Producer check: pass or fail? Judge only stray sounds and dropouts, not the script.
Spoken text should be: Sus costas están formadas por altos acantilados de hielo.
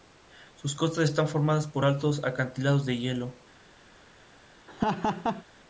fail